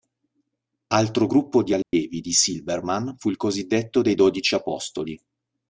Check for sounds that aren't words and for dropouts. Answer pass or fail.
fail